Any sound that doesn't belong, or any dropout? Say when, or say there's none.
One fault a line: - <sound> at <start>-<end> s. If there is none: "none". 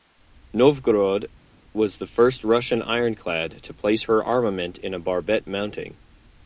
none